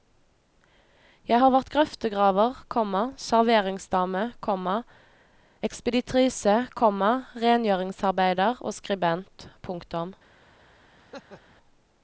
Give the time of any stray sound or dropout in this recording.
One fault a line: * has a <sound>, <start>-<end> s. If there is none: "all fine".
* has a laugh, 11.0-11.6 s